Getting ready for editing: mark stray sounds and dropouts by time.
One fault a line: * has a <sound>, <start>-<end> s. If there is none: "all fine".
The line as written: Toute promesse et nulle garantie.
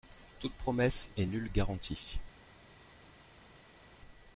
all fine